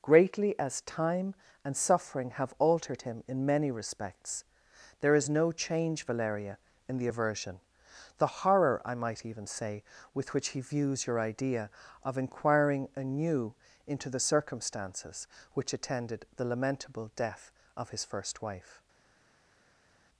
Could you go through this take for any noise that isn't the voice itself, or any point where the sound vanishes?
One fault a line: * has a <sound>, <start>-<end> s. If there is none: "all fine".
all fine